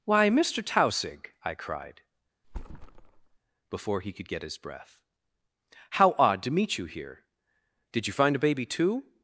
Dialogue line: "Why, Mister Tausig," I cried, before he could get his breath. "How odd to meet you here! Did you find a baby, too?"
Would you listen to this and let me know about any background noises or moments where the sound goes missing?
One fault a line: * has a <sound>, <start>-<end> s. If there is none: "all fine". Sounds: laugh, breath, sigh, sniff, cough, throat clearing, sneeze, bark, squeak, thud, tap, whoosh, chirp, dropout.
* has a thud, 2.4-3.4 s